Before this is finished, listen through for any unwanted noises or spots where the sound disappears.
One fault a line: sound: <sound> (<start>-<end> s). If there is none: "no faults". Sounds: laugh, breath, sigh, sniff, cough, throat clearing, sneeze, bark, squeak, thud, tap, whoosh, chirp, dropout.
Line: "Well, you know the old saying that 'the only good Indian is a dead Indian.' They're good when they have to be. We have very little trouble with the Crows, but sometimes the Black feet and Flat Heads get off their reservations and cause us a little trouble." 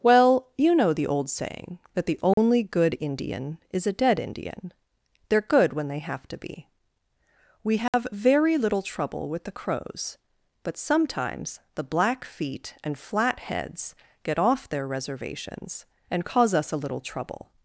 sound: dropout (2.3-2.4 s)
sound: dropout (7.9-7.9 s)